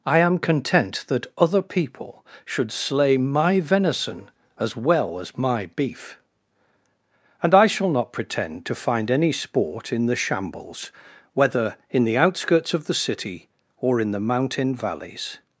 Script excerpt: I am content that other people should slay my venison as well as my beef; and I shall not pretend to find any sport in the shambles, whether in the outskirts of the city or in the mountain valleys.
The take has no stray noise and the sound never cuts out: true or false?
true